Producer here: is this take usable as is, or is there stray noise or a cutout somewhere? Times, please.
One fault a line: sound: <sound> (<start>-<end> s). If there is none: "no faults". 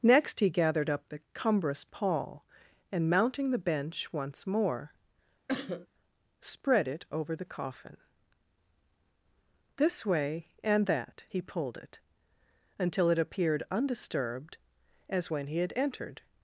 sound: cough (5.5-5.9 s)